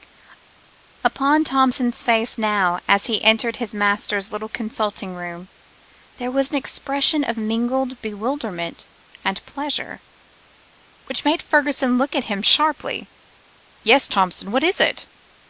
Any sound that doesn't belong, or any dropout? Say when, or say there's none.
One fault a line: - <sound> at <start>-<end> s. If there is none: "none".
none